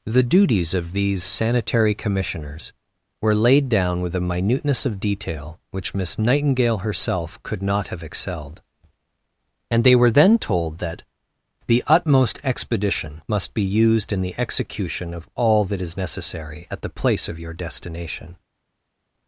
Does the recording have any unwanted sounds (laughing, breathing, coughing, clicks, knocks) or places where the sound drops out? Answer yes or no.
no